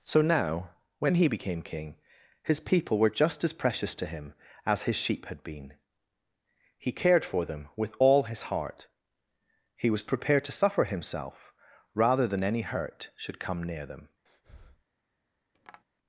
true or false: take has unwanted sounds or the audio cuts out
true